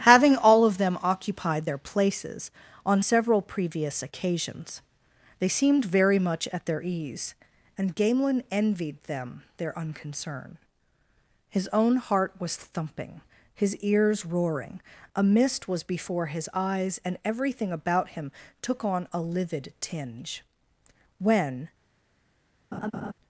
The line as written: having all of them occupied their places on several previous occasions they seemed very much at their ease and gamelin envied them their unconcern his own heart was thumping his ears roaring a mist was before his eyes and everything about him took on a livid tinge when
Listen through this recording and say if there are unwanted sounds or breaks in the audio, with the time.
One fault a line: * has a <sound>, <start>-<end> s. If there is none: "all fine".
* has a laugh, 22.7-23.1 s